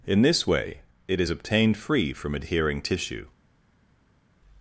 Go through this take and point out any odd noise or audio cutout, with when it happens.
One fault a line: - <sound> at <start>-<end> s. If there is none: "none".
none